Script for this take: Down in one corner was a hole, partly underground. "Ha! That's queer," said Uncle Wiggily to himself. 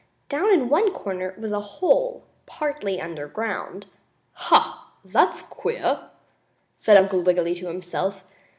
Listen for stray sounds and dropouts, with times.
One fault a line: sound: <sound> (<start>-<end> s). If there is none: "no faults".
no faults